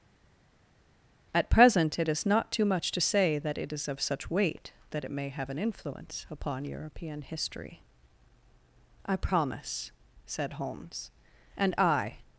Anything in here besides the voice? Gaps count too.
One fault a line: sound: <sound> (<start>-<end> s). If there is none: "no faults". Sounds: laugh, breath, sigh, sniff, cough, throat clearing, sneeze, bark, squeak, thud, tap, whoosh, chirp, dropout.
no faults